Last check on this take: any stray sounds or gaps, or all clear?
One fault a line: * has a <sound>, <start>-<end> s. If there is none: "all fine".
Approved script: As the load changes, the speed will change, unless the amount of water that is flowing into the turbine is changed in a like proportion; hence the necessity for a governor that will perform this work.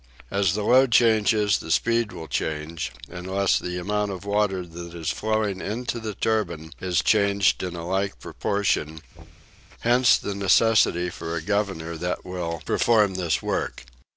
* has a thud, 9.1-9.6 s